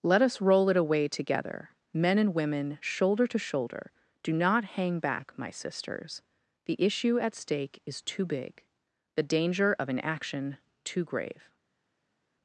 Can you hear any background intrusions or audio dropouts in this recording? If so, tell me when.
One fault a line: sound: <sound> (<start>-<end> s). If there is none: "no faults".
no faults